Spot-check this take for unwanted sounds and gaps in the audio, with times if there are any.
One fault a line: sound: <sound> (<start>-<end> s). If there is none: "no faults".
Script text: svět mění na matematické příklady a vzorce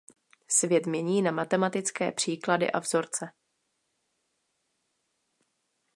no faults